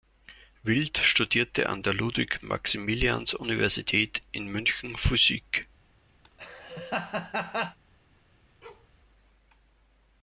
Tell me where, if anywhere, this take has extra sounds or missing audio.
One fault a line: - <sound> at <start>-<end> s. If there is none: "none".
- laugh at 6.2-7.8 s
- bark at 8.6-8.9 s